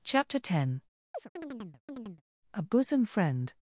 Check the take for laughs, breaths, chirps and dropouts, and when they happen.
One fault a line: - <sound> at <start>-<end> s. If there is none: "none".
- chirp at 1.1-2.2 s